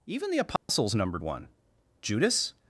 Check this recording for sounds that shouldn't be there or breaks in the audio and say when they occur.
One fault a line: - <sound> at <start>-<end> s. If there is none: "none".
- dropout at 0.6-0.7 s